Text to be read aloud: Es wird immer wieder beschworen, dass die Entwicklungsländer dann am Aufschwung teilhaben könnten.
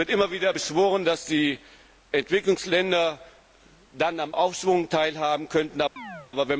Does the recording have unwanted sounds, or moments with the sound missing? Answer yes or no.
yes